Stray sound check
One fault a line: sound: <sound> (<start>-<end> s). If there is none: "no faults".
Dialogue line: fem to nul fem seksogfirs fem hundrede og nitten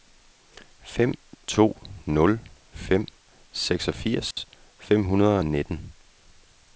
sound: dropout (4.3-4.4 s)